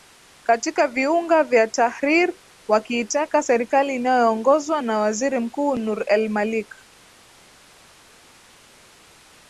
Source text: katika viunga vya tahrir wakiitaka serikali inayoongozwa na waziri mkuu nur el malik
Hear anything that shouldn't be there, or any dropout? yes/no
no